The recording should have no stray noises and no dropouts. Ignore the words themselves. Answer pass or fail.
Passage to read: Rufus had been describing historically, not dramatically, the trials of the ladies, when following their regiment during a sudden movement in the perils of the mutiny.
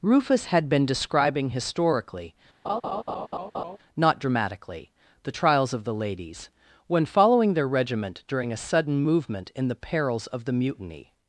fail